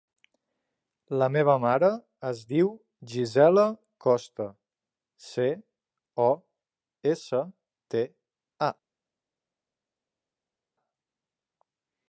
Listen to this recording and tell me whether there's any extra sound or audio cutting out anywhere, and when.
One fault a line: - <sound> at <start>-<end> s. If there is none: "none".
none